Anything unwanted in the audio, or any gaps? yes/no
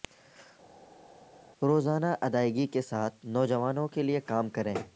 no